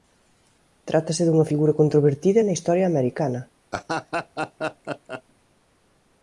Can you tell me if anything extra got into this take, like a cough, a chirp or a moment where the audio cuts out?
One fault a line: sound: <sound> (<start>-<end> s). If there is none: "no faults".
sound: laugh (3.7-5.2 s)